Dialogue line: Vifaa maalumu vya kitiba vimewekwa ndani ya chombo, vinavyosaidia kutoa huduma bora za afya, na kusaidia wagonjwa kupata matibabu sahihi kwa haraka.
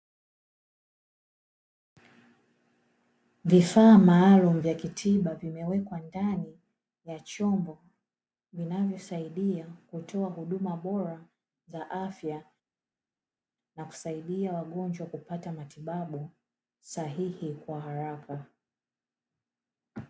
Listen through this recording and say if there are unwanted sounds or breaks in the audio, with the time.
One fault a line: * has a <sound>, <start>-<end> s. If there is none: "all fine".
all fine